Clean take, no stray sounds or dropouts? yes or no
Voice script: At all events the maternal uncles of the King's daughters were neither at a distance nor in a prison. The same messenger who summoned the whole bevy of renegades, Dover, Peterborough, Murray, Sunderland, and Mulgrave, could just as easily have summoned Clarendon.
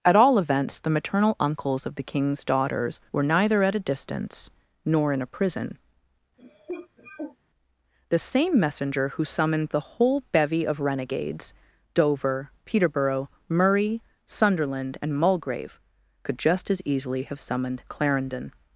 no